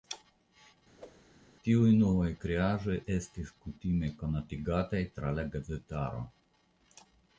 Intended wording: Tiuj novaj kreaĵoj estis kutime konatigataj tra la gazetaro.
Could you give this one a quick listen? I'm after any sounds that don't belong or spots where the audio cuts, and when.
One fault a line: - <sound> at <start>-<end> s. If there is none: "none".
- whoosh at 1.0-1.3 s